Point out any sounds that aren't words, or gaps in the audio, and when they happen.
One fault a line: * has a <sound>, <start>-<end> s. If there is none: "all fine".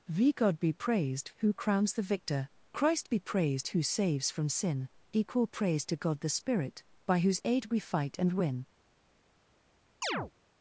* has a chirp, 10.0-10.3 s